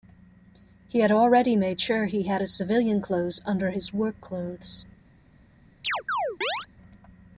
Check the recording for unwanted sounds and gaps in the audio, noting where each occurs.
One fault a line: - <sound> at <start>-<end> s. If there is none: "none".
- chirp at 5.8-6.7 s